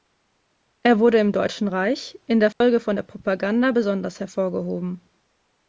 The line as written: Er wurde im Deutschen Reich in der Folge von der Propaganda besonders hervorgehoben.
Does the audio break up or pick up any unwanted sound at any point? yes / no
yes